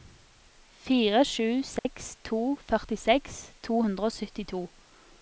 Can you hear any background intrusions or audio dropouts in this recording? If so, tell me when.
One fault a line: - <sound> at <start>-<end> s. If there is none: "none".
- dropout at 1.8-1.9 s